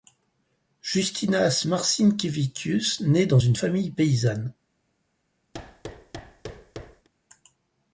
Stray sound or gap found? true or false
true